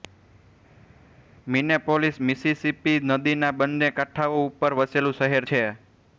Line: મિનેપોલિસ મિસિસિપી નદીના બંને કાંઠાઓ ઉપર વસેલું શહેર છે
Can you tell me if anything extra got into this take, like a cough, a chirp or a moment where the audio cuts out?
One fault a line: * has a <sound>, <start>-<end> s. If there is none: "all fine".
all fine